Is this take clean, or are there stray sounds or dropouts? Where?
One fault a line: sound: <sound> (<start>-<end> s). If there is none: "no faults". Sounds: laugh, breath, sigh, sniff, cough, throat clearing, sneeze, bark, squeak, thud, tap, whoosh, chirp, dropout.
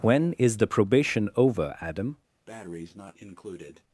sound: breath (2.5-3.8 s)